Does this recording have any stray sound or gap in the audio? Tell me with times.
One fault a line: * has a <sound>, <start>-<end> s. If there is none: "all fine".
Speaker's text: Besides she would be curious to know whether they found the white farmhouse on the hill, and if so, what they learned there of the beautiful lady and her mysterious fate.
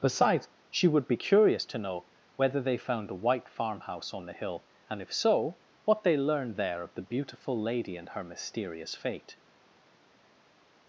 all fine